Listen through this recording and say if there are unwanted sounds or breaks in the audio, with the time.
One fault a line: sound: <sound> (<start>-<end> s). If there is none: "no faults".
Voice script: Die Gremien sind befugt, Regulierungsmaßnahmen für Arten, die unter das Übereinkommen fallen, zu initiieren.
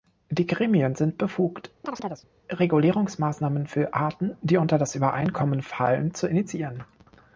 sound: chirp (1.8-2.3 s)